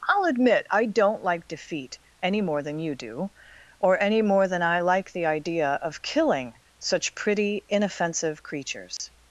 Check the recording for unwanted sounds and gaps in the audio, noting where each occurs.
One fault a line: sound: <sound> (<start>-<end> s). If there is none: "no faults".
sound: dropout (9.0-9.0 s)